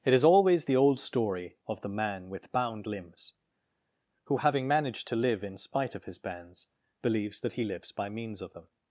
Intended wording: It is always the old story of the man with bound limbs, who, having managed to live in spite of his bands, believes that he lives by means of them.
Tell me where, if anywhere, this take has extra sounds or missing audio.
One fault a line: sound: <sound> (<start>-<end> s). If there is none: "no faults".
no faults